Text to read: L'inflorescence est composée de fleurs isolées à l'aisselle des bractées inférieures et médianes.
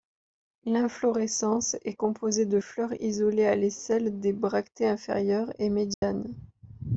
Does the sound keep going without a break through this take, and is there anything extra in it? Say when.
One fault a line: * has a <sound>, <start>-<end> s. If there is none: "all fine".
* has a dropout, 5.9-6.0 s